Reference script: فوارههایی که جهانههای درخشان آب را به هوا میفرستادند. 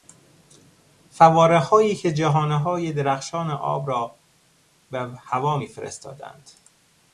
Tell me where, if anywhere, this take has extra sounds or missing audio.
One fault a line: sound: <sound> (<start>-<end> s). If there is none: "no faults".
no faults